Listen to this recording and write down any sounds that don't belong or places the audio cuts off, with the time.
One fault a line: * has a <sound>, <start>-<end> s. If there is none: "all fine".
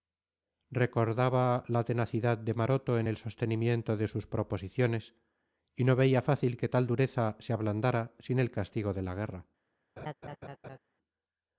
* has a laugh, 10.0-10.8 s